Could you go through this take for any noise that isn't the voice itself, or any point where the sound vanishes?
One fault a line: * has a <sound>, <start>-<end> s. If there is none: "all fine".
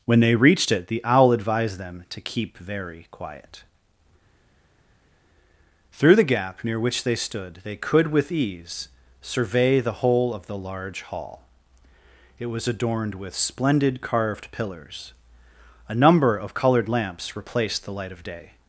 all fine